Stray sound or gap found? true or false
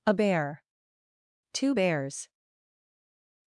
false